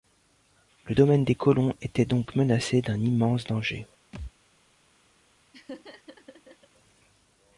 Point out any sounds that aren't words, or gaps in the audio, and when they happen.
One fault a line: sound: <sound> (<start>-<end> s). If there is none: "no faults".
sound: thud (4.1-4.3 s)
sound: laugh (5.5-6.7 s)